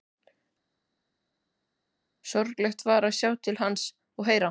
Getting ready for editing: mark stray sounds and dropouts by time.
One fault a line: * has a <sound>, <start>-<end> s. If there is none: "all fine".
all fine